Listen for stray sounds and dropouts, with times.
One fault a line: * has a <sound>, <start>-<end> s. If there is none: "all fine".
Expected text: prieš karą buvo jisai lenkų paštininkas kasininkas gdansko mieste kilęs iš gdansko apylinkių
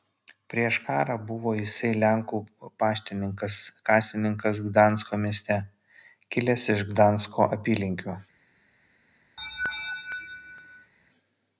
* has a laugh, 9.4-10.9 s